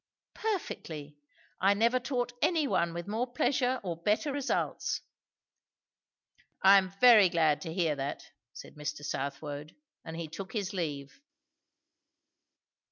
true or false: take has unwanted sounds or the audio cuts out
false